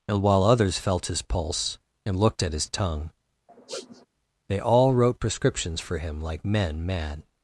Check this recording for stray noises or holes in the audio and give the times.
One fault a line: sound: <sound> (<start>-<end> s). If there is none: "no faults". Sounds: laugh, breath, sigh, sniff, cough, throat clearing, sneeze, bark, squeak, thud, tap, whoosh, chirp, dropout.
sound: sniff (3.5-4.1 s)